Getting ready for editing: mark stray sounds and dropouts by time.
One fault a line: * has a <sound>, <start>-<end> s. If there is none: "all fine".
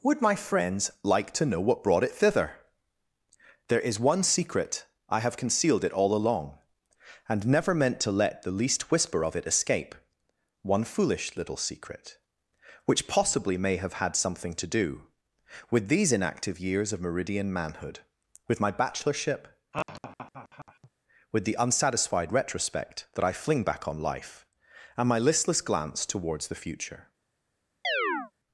* has a laugh, 19.7-20.9 s
* has a chirp, 27.8-28.3 s